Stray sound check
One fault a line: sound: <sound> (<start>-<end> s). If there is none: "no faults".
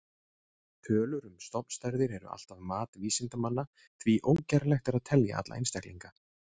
no faults